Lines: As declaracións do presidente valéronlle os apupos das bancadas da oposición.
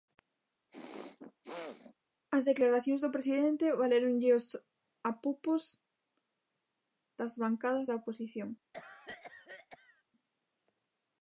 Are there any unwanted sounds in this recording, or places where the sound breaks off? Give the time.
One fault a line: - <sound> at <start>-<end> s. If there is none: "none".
- throat clearing at 0.7-1.9 s
- cough at 8.7-10.0 s